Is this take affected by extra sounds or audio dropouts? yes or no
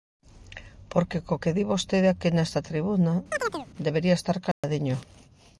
yes